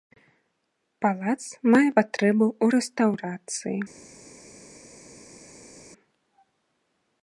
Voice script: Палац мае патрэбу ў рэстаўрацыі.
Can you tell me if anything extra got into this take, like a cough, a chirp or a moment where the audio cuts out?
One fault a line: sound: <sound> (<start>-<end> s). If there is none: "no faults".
no faults